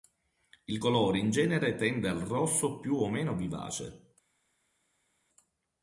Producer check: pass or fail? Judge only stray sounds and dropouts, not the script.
pass